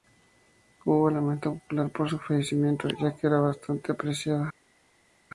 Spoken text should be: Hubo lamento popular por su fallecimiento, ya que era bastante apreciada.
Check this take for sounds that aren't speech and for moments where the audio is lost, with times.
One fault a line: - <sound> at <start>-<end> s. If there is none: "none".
none